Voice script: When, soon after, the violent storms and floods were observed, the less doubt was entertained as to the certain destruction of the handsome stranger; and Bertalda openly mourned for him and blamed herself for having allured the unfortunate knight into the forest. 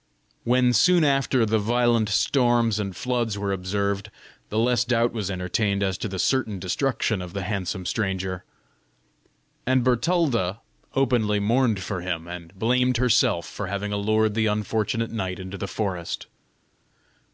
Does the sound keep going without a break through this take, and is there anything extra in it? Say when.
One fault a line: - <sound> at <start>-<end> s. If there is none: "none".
none